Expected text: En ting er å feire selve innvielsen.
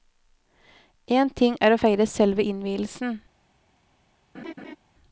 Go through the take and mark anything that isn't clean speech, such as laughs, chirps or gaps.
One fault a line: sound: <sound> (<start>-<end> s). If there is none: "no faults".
sound: laugh (4.3-4.8 s)